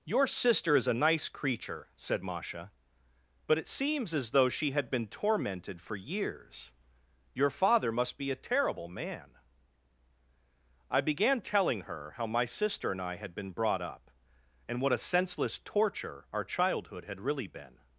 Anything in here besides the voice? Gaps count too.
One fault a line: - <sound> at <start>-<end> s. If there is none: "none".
none